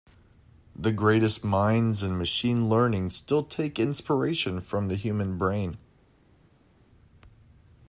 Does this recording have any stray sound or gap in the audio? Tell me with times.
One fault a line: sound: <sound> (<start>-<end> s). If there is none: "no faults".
no faults